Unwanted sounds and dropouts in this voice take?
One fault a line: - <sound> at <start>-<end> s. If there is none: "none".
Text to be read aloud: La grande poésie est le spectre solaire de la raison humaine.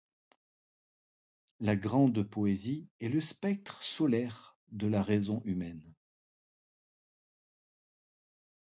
none